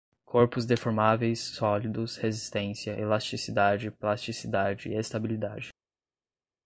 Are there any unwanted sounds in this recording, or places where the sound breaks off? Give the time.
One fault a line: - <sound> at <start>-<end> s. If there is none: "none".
none